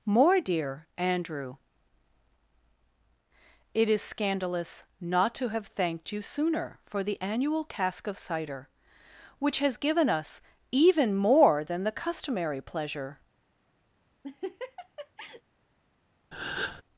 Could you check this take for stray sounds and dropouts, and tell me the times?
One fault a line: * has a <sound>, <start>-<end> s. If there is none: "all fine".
* has a laugh, 14.2-15.4 s
* has a breath, 16.3-16.8 s